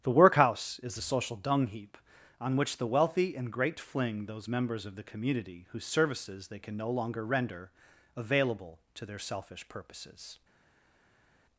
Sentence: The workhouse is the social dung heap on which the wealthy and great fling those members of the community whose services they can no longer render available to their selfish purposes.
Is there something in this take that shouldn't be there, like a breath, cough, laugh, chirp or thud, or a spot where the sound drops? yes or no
no